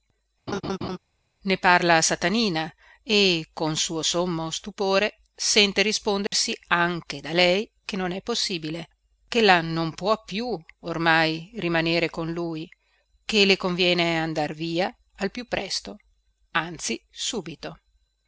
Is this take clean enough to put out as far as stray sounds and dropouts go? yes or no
no